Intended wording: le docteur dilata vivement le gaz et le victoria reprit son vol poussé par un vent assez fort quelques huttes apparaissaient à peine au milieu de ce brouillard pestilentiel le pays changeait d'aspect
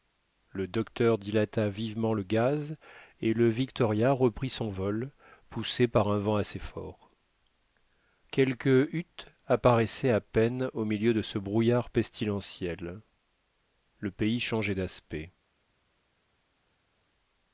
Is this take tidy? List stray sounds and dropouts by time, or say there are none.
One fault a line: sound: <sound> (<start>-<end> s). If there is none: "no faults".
no faults